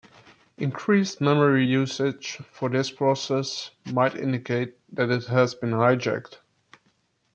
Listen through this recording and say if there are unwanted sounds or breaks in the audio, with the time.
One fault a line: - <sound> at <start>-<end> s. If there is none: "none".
none